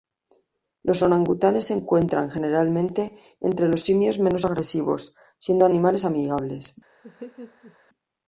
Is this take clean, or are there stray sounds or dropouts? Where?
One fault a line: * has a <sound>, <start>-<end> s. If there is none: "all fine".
* has a laugh, 7.0-7.8 s